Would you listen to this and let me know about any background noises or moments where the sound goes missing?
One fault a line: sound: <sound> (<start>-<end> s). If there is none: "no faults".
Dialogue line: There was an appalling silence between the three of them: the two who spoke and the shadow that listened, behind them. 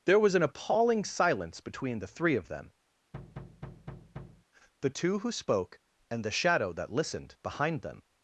sound: thud (3.1-4.5 s)